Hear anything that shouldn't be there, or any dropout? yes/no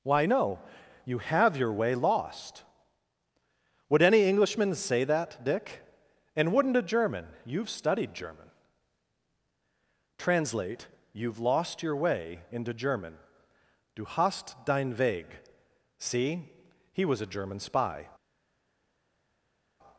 no